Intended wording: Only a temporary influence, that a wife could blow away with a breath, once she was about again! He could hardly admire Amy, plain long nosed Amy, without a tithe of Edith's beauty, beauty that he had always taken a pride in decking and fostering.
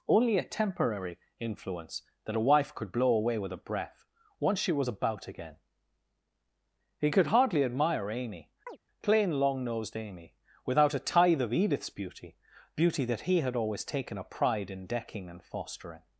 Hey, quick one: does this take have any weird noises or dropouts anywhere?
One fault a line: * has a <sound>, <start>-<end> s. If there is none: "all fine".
* has a chirp, 8.7-8.8 s